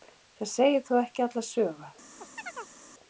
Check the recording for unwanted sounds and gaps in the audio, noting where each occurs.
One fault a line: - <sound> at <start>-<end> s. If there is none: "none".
- chirp at 2.2-2.8 s